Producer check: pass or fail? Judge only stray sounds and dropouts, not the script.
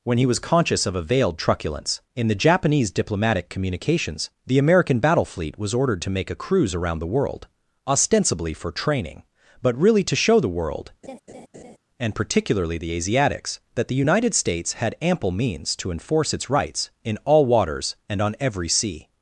fail